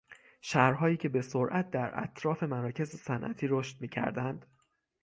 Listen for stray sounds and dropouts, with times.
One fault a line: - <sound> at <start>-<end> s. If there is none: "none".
none